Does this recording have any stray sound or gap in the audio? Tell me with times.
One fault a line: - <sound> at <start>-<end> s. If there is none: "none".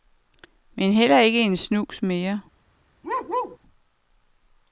- bark at 3.0-3.6 s